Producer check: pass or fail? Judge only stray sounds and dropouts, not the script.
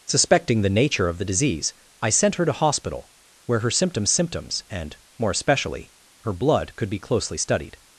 pass